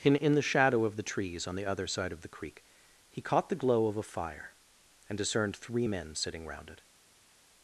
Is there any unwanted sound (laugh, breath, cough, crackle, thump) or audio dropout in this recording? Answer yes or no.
no